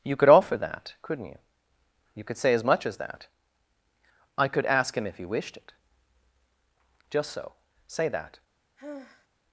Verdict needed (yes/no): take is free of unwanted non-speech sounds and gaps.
no